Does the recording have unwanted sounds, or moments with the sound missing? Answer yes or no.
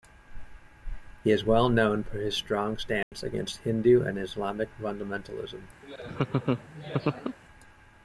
yes